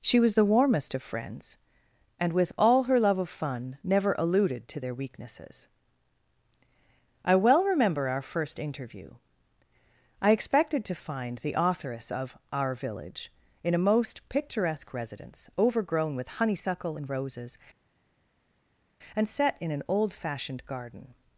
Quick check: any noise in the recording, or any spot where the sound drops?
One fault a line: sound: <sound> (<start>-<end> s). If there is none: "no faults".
no faults